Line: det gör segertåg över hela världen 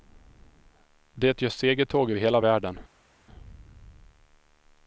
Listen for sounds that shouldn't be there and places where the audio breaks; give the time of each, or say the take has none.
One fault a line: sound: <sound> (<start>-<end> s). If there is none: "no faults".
no faults